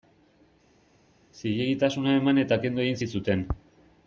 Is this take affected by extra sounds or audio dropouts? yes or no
no